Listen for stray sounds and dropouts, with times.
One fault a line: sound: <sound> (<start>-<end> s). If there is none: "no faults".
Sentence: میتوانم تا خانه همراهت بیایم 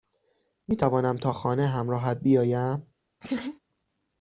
sound: laugh (3.2-3.6 s)